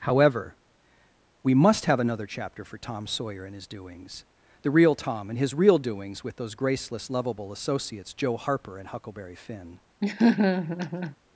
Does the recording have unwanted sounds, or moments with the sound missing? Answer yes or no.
yes